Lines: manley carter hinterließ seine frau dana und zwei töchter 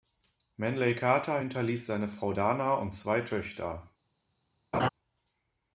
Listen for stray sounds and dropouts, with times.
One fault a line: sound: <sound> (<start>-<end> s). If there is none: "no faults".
sound: laugh (4.7-4.9 s)